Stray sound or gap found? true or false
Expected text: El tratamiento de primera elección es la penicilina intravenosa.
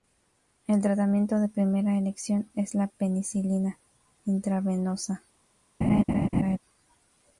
true